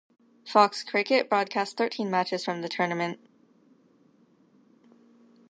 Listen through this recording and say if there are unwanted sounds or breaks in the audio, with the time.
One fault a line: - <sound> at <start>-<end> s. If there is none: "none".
none